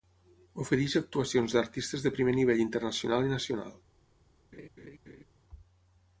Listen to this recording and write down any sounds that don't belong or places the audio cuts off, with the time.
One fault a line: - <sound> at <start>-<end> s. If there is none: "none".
- laugh at 4.5-5.2 s